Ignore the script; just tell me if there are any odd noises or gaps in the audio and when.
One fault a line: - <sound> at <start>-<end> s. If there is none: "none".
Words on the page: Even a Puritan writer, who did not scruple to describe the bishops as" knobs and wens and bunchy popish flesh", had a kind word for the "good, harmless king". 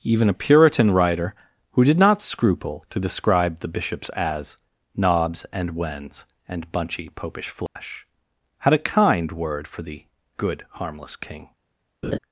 - dropout at 7.7-7.8 s
- laugh at 12.0-12.2 s